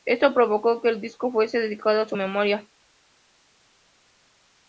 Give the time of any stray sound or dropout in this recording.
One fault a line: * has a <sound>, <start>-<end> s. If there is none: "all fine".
all fine